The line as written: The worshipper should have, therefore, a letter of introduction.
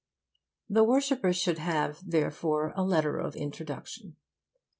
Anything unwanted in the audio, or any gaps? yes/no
no